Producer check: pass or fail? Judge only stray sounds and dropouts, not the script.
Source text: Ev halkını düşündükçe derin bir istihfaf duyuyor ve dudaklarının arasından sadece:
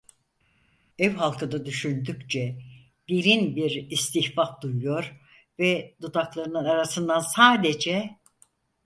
pass